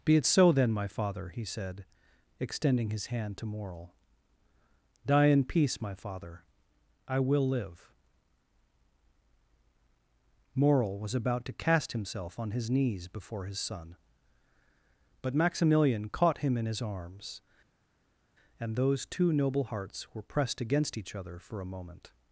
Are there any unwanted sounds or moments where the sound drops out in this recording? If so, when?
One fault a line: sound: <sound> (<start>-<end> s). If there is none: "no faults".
no faults